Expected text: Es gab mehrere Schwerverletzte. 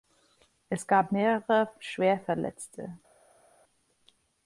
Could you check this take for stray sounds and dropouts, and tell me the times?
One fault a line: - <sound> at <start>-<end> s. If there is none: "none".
none